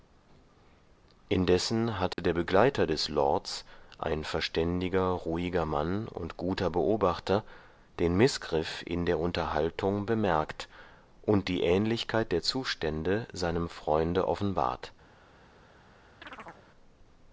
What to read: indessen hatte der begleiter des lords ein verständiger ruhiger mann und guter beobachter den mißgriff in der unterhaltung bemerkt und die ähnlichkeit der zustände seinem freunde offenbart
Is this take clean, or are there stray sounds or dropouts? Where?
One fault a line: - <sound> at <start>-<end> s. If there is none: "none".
- dropout at 2.1-2.2 s
- chirp at 16.2-16.7 s